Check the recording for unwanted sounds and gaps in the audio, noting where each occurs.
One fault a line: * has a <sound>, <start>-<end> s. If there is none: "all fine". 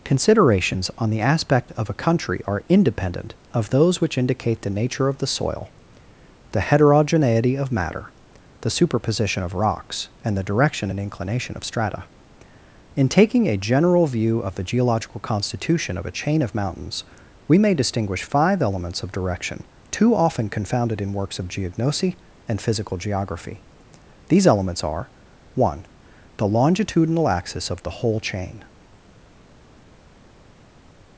all fine